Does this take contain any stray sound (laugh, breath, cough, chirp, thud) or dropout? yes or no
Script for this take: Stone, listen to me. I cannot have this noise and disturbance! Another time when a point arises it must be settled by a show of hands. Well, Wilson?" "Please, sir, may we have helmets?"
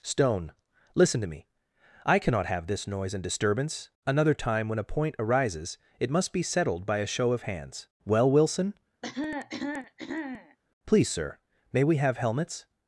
yes